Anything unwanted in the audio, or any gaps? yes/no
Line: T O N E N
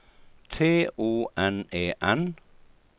no